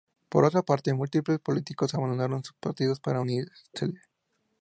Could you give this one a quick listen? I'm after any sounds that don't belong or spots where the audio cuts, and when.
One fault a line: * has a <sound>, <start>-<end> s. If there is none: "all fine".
all fine